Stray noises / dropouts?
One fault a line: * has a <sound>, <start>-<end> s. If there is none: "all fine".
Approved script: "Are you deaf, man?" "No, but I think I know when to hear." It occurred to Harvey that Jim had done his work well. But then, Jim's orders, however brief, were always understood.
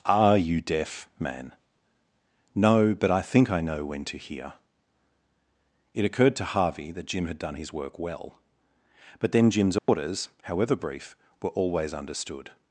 * has a dropout, 9.8-9.9 s